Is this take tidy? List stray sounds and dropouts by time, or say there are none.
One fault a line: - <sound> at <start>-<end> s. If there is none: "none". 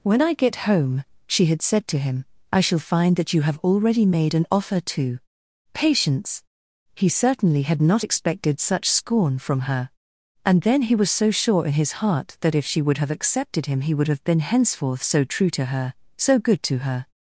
none